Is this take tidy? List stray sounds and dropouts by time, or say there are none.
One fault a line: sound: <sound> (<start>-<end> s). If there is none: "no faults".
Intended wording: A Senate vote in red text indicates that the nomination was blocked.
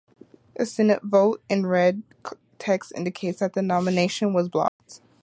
sound: dropout (4.7-4.8 s)